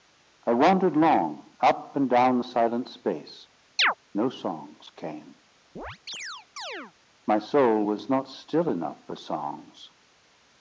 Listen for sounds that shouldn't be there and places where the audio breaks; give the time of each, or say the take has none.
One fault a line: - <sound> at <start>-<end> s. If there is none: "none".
- chirp at 3.8-3.9 s
- chirp at 5.8-6.9 s